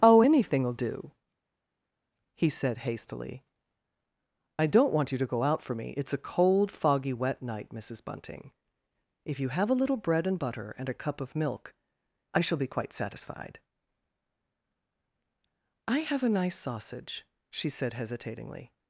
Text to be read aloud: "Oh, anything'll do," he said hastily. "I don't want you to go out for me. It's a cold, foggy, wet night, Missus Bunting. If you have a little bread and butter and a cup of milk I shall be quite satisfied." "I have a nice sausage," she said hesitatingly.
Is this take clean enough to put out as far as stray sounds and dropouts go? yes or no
yes